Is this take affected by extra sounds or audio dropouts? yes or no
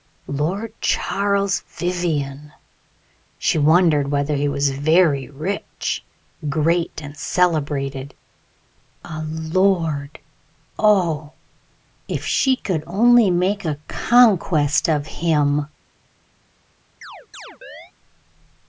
yes